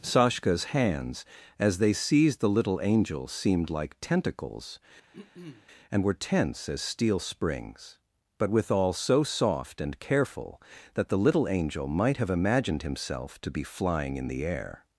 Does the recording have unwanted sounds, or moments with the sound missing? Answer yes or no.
yes